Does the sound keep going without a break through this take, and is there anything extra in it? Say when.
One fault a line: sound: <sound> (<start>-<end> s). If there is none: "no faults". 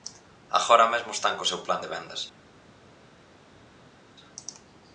no faults